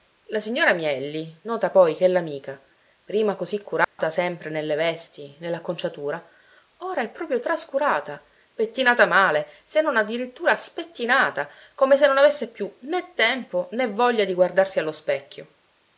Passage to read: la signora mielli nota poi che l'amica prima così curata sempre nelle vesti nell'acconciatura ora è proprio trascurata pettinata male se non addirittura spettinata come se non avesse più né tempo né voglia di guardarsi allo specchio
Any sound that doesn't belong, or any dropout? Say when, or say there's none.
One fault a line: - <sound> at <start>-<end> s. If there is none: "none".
- dropout at 3.8-4.0 s